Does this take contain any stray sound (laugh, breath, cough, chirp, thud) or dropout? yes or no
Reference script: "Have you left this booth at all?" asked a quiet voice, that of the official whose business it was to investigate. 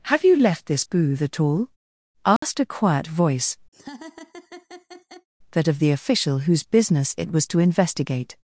yes